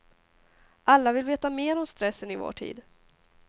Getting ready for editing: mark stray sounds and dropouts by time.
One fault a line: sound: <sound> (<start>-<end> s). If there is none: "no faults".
no faults